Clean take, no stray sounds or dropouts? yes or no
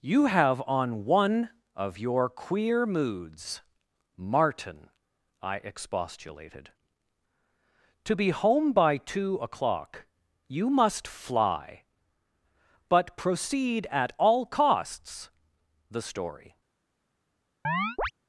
no